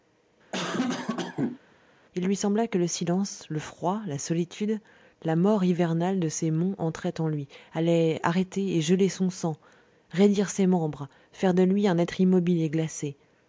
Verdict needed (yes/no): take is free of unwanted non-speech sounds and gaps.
no